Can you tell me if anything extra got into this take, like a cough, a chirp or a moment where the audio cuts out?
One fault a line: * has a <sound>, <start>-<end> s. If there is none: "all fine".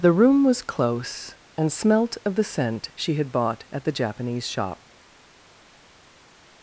all fine